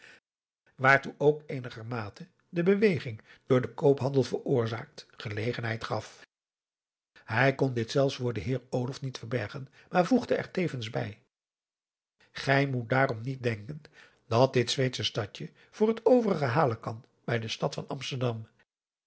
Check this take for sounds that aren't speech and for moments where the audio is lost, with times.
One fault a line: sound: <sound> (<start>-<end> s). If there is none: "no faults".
no faults